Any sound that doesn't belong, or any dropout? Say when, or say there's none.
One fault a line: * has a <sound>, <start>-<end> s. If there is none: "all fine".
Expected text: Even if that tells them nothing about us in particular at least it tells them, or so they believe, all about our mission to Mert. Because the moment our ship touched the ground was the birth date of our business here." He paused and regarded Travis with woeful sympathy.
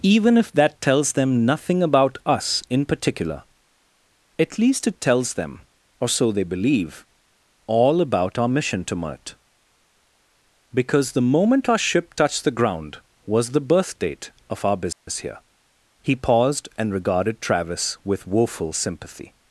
* has a dropout, 14.9-15.1 s